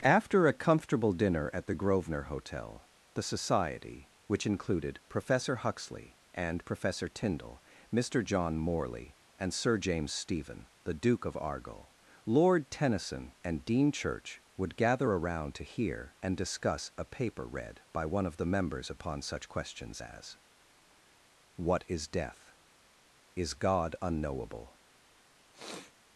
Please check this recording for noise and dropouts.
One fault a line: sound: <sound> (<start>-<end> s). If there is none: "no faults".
sound: sniff (25.5-25.9 s)